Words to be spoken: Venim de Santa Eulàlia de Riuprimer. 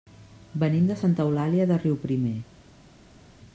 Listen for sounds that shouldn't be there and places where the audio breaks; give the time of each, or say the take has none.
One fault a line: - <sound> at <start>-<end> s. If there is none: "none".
none